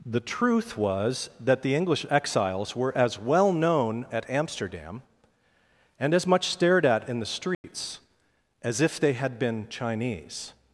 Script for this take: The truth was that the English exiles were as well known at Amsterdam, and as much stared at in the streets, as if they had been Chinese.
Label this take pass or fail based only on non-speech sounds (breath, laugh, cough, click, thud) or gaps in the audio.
fail